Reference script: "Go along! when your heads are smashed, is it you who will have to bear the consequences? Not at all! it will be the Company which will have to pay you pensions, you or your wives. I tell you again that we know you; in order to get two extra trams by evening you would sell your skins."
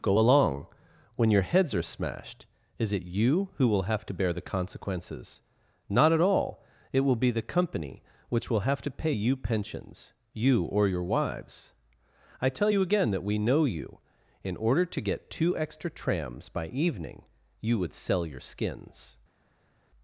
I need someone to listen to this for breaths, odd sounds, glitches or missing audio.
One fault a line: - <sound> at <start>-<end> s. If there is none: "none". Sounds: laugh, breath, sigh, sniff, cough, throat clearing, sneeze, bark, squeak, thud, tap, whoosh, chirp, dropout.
none